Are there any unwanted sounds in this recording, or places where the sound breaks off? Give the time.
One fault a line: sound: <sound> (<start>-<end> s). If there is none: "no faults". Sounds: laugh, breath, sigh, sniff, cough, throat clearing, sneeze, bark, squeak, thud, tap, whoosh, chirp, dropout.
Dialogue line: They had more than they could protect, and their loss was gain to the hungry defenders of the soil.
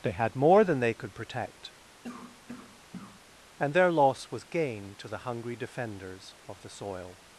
sound: cough (2.0-3.2 s)